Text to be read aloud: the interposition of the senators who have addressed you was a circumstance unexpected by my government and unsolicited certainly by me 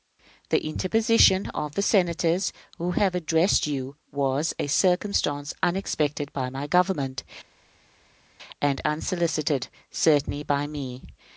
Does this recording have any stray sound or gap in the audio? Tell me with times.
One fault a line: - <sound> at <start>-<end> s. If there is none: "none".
none